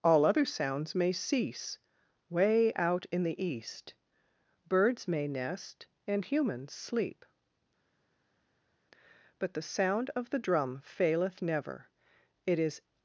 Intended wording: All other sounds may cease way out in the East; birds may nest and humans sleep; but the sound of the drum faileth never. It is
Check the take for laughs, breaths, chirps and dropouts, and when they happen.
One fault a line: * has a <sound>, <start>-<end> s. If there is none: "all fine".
all fine